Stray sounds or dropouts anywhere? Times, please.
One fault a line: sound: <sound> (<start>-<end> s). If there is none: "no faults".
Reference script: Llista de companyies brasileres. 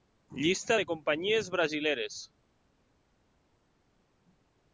no faults